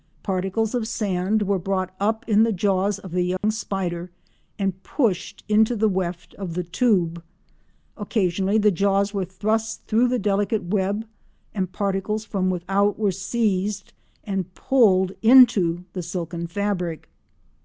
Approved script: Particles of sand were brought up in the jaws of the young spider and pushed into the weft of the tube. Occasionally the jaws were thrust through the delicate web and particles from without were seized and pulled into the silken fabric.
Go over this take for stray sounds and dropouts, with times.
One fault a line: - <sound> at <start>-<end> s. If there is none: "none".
- dropout at 3.4-3.4 s